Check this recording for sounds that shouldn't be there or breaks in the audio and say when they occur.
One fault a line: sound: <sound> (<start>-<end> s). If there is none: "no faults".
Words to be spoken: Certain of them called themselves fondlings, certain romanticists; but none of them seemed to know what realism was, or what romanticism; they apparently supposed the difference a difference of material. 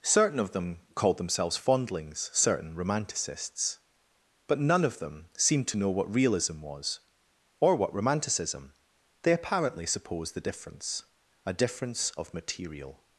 no faults